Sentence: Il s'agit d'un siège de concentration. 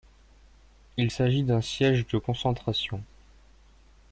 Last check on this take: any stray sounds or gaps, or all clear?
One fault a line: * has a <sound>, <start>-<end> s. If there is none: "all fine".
all fine